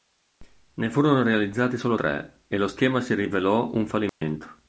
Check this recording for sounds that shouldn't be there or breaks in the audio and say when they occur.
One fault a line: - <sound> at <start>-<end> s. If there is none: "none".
- dropout at 4.1-4.2 s